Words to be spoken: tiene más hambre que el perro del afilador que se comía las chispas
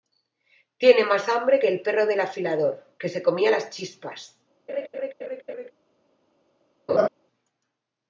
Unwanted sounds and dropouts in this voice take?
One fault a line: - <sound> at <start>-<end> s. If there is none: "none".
- laugh at 4.7-5.7 s
- laugh at 6.9-7.1 s